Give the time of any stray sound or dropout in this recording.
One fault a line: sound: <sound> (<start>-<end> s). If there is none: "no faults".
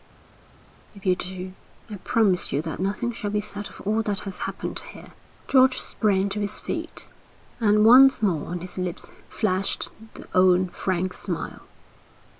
no faults